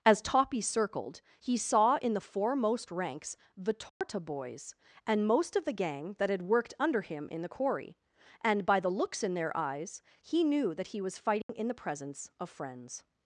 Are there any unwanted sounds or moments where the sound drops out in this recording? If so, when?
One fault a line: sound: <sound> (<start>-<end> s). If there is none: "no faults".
sound: dropout (3.9-4.0 s)
sound: dropout (11.4-11.5 s)